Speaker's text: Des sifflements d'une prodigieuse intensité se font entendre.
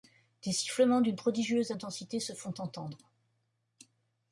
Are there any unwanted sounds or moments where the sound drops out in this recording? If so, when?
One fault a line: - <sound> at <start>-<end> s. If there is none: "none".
none